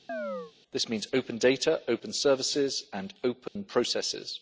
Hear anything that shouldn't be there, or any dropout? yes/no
yes